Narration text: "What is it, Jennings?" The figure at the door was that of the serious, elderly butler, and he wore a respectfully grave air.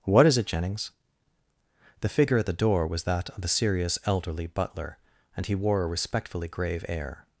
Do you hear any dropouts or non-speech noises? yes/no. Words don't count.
no